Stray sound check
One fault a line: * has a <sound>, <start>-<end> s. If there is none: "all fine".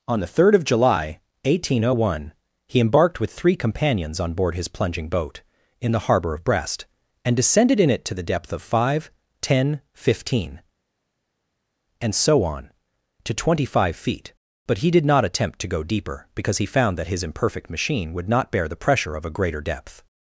all fine